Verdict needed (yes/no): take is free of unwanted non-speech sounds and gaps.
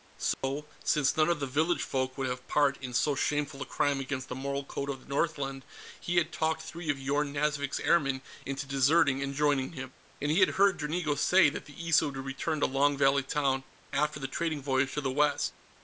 no